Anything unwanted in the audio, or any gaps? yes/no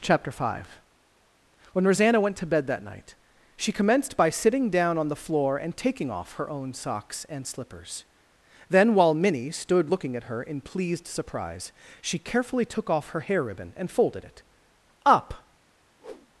yes